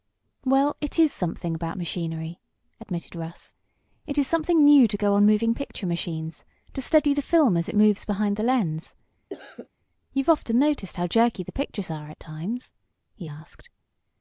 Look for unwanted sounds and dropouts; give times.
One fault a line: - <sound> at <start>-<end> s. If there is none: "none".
- cough at 9.3-9.7 s